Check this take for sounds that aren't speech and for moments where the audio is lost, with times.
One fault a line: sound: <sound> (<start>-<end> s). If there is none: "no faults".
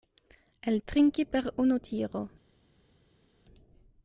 no faults